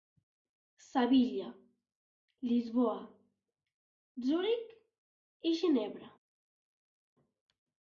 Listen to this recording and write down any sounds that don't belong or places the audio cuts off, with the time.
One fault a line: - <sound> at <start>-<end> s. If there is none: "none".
none